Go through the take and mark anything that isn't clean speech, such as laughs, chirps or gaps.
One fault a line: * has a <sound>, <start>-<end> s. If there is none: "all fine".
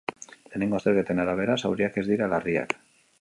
all fine